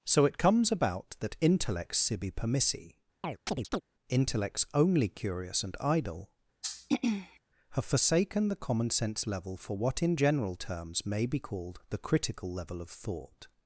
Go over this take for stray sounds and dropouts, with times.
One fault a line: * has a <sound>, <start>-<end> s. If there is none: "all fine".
* has a chirp, 3.2-3.8 s
* has a throat clearing, 6.6-7.4 s